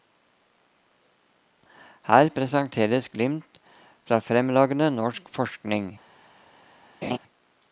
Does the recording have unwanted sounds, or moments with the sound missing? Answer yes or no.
yes